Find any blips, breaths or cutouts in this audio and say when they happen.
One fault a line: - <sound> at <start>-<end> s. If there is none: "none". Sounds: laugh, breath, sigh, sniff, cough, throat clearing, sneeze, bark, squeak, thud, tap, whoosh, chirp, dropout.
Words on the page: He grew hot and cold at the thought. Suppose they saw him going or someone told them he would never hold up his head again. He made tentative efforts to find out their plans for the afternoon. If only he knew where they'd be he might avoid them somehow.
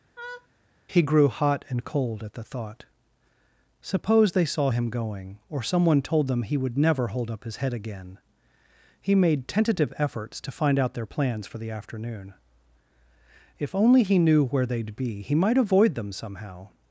- laugh at 0.2-0.5 s